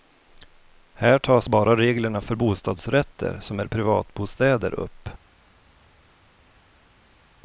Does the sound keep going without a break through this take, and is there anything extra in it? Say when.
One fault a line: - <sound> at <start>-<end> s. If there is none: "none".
none